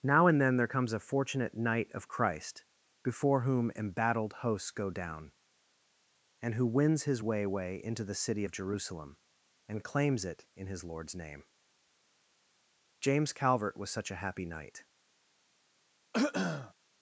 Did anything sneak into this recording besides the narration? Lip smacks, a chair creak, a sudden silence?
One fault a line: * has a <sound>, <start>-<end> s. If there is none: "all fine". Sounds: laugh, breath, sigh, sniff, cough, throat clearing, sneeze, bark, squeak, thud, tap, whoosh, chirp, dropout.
* has a throat clearing, 16.1-16.7 s